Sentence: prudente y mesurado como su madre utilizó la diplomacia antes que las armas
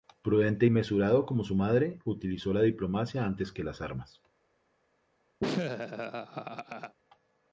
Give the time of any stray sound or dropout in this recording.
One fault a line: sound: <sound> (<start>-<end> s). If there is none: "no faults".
sound: laugh (5.4-7.0 s)